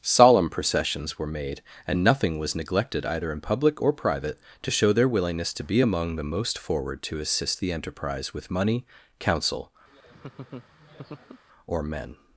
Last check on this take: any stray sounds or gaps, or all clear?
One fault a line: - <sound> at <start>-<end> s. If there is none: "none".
- laugh at 9.9-11.4 s